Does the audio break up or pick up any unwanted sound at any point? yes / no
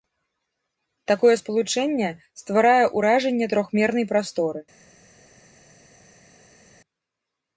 no